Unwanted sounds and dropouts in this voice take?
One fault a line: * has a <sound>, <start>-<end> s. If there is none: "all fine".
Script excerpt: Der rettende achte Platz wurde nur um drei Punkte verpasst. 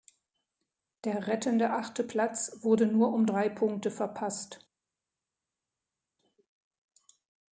all fine